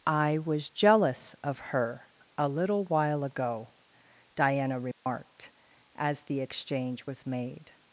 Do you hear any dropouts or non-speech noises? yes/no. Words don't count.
yes